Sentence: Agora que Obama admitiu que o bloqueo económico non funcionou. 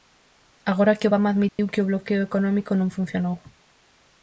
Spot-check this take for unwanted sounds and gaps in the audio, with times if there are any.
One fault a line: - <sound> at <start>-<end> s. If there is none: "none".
- dropout at 1.5-1.6 s